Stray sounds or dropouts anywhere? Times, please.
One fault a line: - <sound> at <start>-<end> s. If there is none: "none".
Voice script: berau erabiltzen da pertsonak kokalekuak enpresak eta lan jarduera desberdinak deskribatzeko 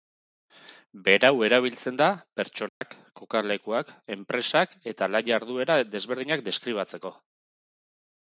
- dropout at 2.7-2.8 s